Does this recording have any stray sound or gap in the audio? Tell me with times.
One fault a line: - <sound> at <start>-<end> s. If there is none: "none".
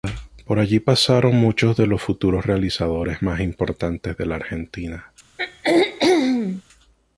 - throat clearing at 5.4-6.6 s